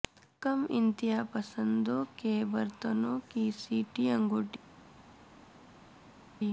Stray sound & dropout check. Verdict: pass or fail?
pass